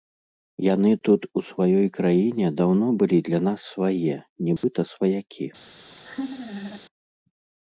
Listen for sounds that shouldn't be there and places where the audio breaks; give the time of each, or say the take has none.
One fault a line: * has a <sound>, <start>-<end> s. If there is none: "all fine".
* has a dropout, 4.6-4.6 s
* has a laugh, 5.9-6.8 s